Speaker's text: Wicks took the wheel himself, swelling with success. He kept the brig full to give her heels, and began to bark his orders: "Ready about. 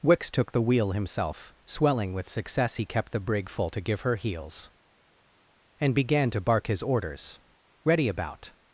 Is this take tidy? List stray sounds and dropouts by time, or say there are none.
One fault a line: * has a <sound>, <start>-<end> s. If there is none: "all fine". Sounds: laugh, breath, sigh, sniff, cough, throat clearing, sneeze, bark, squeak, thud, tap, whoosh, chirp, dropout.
all fine